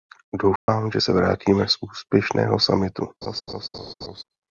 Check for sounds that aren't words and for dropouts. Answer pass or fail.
fail